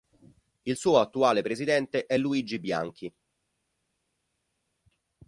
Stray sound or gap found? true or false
false